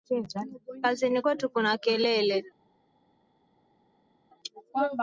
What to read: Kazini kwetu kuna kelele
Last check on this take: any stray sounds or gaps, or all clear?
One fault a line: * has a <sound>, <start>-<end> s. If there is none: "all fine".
all fine